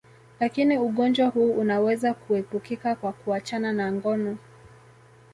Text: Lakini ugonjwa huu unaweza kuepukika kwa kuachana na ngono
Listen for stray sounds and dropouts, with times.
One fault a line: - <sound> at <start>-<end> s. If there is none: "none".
none